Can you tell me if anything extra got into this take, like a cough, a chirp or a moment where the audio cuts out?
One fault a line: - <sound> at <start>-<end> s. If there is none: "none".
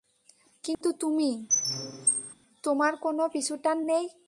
- dropout at 0.7-0.8 s
- squeak at 1.5-2.3 s